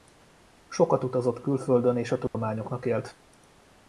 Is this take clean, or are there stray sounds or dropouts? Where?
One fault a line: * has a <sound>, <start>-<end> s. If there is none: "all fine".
* has a dropout, 2.3-2.3 s